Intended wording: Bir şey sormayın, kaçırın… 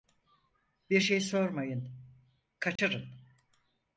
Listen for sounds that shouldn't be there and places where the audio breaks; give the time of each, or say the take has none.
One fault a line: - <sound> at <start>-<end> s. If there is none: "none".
- dropout at 2.8-2.8 s